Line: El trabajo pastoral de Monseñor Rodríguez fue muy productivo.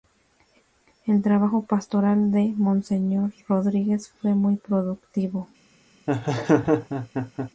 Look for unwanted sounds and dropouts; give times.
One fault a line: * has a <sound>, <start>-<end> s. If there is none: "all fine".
* has a laugh, 6.1-7.5 s